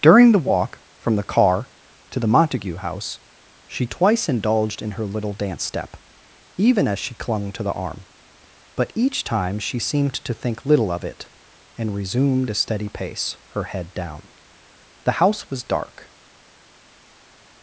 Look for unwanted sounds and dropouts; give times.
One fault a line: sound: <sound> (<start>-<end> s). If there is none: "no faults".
no faults